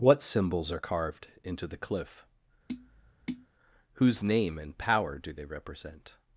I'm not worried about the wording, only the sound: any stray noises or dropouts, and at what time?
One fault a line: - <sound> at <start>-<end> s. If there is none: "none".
- tap at 2.7-3.5 s